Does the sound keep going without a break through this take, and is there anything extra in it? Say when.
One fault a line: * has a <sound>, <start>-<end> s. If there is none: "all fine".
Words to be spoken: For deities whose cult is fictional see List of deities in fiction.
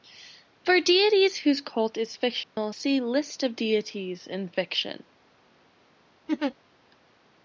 * has a dropout, 2.4-2.6 s
* has a laugh, 6.3-6.5 s